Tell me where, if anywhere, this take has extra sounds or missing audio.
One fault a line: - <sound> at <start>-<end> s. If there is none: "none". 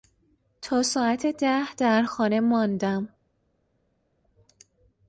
none